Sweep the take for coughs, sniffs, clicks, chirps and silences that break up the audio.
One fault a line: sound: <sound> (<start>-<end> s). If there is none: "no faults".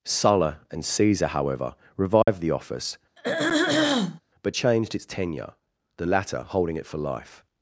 sound: dropout (2.2-2.3 s)
sound: throat clearing (3.2-4.2 s)